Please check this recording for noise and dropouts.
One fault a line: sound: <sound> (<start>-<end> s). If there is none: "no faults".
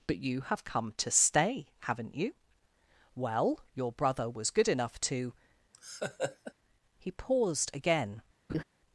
sound: laugh (5.7-6.5 s)
sound: laugh (8.5-8.6 s)